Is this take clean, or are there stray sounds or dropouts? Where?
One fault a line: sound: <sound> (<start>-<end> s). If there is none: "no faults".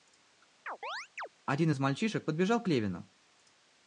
sound: chirp (0.7-1.3 s)